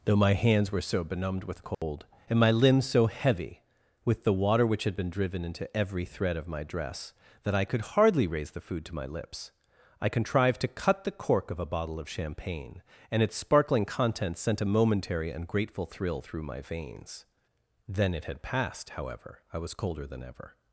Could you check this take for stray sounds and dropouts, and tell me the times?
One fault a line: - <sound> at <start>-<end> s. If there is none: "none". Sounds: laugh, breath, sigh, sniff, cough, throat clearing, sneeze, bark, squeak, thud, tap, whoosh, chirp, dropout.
- dropout at 1.7-1.8 s